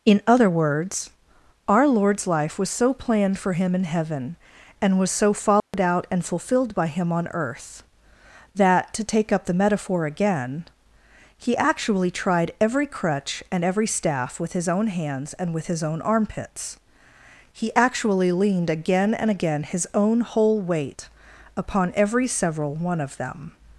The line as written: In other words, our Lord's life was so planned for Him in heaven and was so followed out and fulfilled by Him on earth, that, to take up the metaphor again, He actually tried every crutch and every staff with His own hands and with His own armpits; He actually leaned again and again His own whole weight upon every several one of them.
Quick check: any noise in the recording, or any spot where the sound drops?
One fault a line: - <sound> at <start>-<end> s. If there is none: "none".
- dropout at 5.6-5.7 s